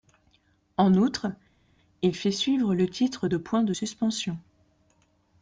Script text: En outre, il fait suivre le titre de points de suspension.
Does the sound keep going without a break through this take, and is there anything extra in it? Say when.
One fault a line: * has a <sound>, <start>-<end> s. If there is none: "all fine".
all fine